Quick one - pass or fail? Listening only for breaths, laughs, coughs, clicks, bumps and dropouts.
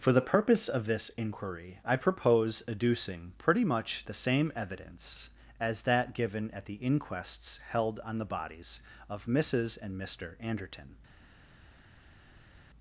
pass